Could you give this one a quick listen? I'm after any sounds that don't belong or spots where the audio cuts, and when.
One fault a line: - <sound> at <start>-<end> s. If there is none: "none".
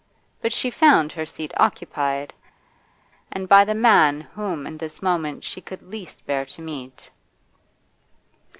none